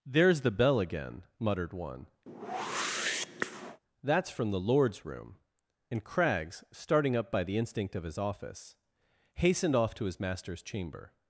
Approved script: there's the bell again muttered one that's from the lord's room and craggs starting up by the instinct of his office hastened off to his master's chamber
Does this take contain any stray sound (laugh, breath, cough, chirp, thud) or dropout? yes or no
yes